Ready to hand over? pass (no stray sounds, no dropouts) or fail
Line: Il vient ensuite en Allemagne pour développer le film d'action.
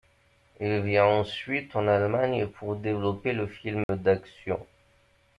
fail